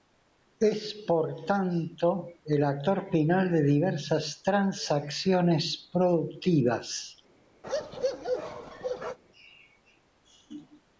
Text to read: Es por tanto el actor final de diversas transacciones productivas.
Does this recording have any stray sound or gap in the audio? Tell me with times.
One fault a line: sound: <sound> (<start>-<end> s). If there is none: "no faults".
sound: bark (7.6-9.2 s)